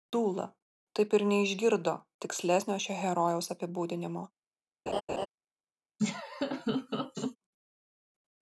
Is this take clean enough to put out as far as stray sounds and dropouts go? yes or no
no